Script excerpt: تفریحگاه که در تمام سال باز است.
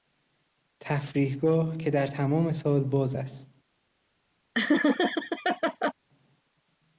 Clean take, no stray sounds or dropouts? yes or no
no